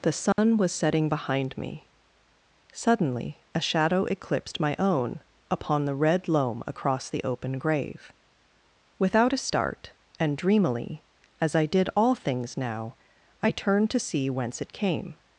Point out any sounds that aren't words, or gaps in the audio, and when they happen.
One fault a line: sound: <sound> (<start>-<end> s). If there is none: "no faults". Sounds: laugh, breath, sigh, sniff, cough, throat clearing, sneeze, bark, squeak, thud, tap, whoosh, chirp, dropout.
sound: dropout (0.3-0.4 s)